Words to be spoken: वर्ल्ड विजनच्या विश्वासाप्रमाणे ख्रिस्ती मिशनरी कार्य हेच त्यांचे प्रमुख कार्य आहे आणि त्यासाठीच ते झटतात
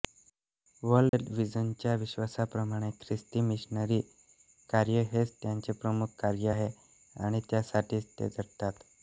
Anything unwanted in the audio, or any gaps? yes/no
yes